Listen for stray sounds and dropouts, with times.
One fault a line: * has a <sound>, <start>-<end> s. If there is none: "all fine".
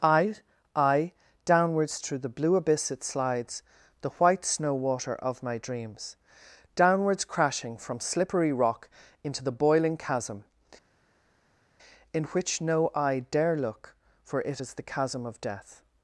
all fine